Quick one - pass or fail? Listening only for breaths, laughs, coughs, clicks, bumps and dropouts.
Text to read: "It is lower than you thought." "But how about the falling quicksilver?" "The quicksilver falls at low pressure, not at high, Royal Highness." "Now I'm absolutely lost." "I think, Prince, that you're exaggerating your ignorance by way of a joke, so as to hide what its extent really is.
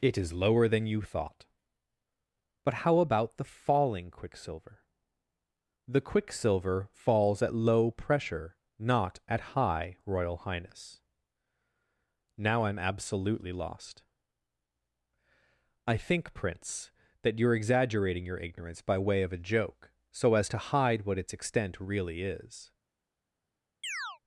fail